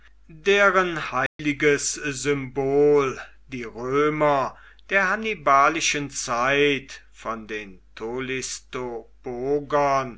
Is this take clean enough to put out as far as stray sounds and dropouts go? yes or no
no